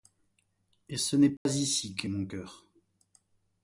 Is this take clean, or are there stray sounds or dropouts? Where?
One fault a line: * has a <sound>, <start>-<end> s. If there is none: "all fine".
* has a dropout, 1.4-1.5 s